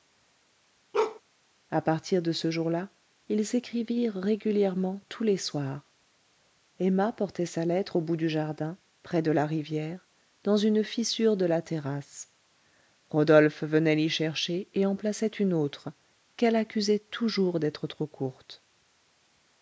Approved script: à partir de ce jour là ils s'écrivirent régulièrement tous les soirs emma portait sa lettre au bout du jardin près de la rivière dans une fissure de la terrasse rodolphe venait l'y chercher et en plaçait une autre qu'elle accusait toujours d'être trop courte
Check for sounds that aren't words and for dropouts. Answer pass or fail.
fail